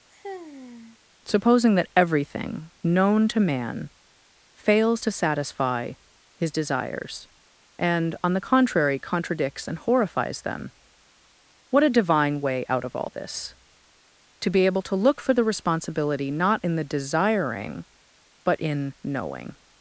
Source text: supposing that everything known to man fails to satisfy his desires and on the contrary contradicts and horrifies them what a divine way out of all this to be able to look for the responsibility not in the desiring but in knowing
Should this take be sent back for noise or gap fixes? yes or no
yes